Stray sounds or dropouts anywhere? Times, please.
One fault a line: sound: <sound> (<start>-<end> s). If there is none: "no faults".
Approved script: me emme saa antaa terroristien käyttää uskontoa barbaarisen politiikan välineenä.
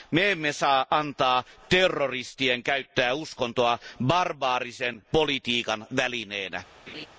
sound: laugh (6.9-7.1 s)